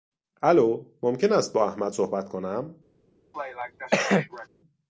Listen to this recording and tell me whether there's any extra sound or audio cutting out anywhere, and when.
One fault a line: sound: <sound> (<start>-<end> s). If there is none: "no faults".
sound: cough (3.3-4.5 s)